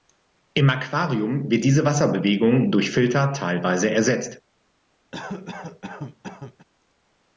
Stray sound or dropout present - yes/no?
yes